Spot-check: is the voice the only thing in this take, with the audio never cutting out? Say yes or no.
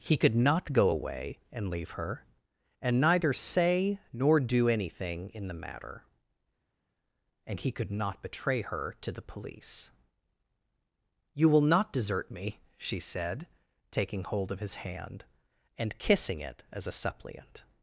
yes